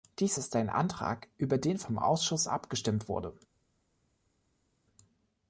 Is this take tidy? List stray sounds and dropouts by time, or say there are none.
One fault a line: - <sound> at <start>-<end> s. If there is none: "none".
none